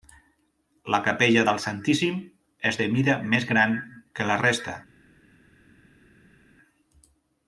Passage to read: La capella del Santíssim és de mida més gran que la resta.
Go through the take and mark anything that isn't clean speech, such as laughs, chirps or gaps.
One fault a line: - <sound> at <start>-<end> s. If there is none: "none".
none